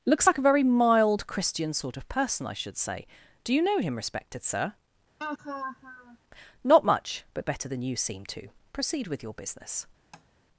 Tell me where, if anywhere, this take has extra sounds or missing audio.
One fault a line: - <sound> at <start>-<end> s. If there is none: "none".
- laugh at 5.2-6.2 s
- tap at 10.1-10.3 s